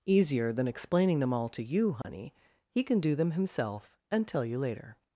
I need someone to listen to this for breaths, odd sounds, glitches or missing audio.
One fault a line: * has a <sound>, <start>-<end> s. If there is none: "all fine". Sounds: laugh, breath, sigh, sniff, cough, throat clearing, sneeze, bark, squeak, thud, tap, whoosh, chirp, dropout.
* has a dropout, 2.0-2.0 s